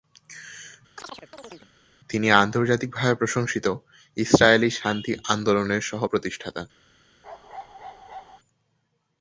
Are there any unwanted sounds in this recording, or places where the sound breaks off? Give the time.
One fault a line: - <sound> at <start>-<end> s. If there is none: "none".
- chirp at 1.0-1.7 s
- bark at 7.2-8.4 s